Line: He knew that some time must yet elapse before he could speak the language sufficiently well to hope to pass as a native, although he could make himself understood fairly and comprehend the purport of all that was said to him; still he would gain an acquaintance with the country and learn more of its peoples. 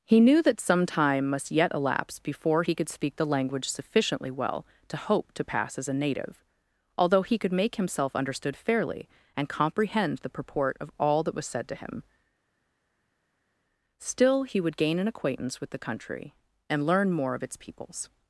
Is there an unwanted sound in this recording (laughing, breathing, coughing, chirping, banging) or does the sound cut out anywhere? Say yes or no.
no